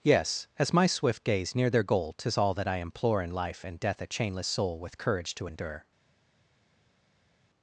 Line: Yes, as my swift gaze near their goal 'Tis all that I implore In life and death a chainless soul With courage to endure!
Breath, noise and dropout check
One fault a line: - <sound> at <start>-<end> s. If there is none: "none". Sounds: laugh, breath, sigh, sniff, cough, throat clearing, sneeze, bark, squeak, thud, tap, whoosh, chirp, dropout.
none